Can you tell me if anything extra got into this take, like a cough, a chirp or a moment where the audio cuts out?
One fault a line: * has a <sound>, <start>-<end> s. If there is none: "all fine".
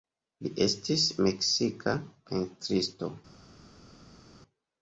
all fine